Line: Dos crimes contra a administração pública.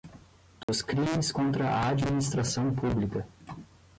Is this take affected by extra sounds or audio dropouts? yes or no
yes